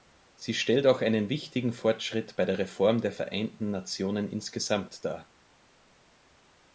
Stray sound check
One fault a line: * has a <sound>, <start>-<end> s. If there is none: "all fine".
all fine